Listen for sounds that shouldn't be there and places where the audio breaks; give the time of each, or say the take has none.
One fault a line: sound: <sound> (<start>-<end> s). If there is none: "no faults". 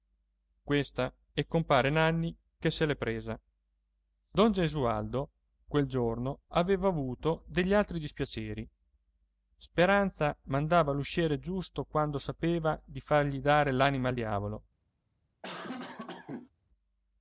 sound: cough (15.4-16.5 s)